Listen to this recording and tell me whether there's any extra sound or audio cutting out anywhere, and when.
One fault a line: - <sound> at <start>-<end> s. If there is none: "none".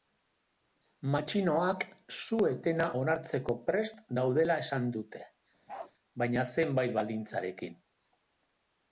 - bark at 5.7-5.9 s